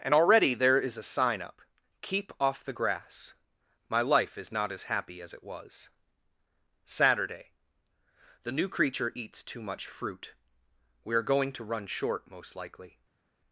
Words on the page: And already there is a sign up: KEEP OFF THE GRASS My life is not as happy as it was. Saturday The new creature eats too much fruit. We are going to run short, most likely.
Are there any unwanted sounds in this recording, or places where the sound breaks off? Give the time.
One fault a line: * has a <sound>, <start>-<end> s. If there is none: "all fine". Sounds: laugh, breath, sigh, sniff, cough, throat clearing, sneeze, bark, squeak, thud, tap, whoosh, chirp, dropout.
all fine